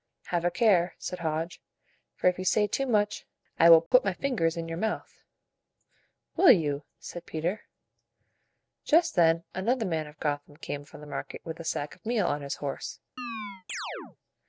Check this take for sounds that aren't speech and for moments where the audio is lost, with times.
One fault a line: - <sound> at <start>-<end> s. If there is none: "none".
- dropout at 3.9-3.9 s
- chirp at 13.2-14.2 s